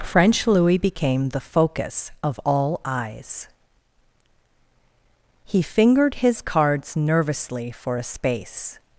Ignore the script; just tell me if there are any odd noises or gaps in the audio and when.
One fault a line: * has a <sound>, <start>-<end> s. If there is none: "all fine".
all fine